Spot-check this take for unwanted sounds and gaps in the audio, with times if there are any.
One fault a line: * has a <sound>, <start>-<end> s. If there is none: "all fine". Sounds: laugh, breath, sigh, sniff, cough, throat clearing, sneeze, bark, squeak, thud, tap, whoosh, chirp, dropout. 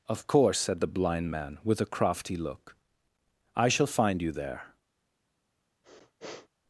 * has a sniff, 5.8-6.5 s